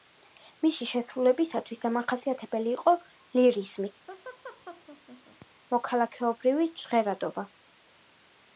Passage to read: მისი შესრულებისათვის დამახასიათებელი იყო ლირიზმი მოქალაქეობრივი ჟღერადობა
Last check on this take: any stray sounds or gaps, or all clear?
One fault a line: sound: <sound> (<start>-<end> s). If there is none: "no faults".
sound: laugh (4.1-5.5 s)